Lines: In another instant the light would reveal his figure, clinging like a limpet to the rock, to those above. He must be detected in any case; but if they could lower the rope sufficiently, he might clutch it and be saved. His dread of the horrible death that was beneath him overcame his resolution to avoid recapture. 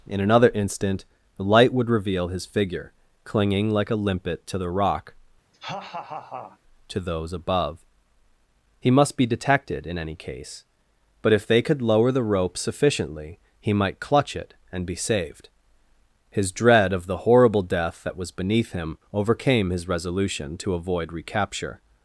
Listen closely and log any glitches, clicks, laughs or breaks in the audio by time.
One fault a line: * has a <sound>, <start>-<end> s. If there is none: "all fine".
* has a laugh, 5.5-6.6 s